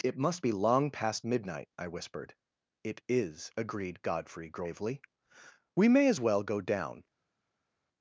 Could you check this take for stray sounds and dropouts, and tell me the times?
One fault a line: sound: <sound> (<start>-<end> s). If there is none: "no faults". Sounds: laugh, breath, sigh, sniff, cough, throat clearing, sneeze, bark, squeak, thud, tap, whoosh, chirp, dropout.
no faults